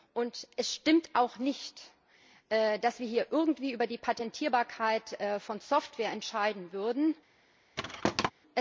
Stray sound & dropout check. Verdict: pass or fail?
fail